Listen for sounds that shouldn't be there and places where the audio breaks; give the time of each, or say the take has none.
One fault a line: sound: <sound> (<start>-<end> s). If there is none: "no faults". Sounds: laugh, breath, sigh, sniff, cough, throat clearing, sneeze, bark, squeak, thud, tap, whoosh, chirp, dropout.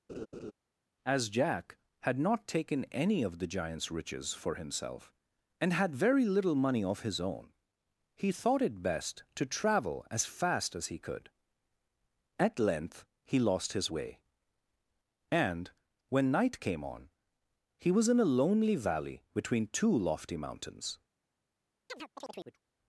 sound: laugh (0.1-0.5 s)
sound: chirp (21.9-22.6 s)